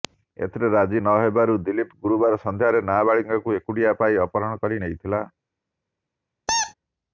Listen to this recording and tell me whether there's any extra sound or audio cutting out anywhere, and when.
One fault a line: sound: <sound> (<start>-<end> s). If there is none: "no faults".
sound: squeak (6.5-6.7 s)